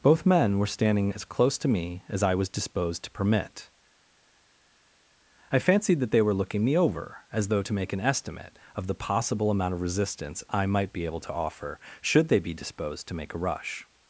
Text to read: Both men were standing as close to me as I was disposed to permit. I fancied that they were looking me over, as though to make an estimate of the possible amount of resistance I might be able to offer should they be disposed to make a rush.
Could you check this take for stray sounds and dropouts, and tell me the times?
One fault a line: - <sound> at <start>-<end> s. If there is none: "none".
none